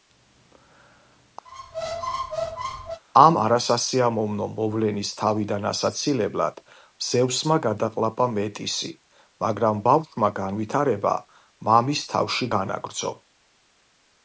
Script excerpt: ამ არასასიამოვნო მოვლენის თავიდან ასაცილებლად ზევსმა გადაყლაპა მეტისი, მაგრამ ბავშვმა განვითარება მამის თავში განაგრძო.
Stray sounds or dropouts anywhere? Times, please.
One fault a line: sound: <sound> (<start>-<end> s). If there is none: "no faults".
sound: squeak (1.5-3.0 s)